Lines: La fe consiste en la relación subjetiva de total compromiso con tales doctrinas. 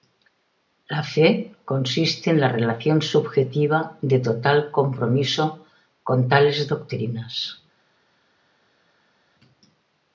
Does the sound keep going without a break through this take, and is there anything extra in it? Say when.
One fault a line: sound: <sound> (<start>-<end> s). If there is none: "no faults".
no faults